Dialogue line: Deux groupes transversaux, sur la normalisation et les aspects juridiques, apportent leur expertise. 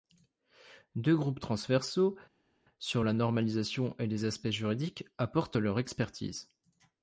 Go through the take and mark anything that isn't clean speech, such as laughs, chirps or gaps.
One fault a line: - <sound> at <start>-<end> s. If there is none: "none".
none